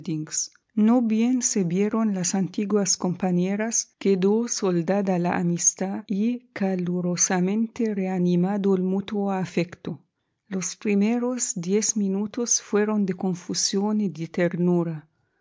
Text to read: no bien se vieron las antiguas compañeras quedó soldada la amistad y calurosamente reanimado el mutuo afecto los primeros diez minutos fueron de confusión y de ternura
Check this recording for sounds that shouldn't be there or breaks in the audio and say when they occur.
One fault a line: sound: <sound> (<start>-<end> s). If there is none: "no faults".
no faults